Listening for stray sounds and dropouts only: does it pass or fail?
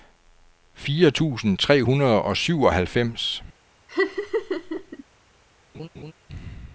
fail